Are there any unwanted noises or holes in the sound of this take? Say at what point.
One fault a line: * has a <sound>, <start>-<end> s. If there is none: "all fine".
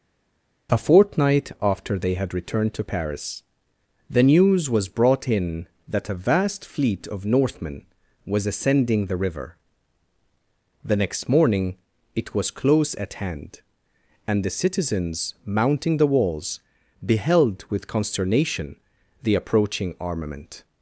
all fine